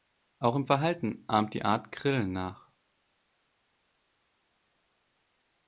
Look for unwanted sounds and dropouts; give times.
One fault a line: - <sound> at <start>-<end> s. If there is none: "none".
none